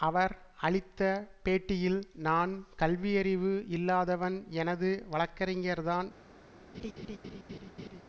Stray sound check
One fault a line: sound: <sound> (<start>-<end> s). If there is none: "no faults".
sound: laugh (6.7-8.0 s)